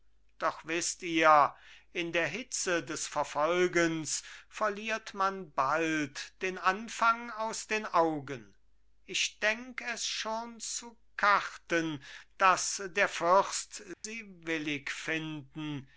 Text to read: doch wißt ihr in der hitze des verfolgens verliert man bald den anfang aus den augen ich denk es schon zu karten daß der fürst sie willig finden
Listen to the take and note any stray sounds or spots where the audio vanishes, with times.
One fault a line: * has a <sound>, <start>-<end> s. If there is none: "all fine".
* has a dropout, 13.9-14.0 s